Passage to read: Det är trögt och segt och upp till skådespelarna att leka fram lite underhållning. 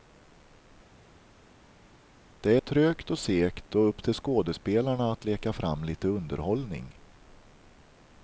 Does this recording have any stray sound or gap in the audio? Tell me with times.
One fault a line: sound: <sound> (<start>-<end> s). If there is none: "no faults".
no faults